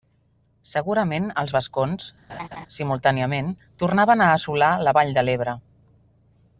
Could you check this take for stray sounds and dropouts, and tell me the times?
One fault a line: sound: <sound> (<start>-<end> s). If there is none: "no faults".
sound: laugh (2.3-2.7 s)